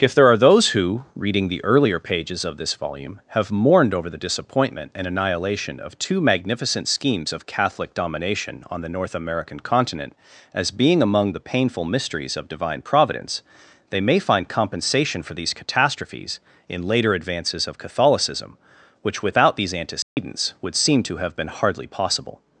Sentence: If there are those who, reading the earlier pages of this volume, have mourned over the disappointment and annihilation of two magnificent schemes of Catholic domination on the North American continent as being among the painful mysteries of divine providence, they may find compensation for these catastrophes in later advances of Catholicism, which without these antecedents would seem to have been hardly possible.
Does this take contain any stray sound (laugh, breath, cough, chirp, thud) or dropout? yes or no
yes